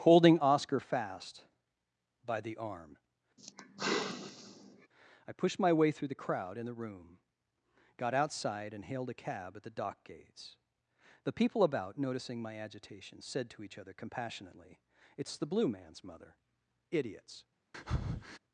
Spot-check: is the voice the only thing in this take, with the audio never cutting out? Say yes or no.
no